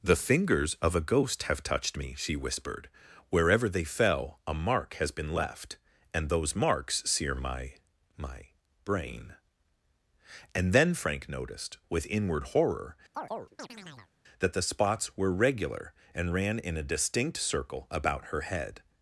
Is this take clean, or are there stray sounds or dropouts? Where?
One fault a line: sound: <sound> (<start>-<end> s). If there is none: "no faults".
sound: chirp (13.1-14.1 s)